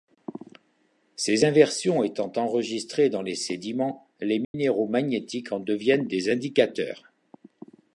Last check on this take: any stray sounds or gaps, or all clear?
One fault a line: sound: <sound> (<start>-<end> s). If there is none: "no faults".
sound: dropout (4.4-4.5 s)